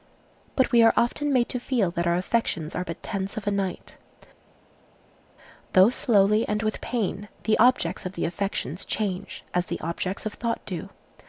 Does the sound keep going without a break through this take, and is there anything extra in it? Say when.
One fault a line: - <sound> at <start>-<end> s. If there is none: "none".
none